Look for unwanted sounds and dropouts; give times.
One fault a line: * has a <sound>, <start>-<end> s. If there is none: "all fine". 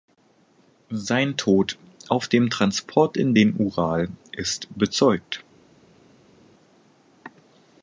all fine